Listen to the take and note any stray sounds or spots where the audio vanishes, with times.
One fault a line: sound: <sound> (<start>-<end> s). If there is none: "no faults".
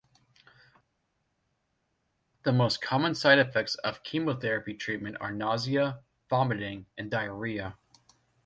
no faults